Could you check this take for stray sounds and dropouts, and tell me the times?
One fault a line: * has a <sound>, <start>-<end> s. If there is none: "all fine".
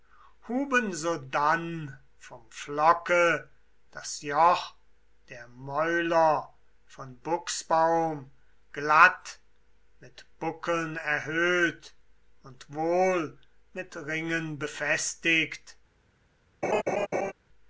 * has a laugh, 16.6-17.3 s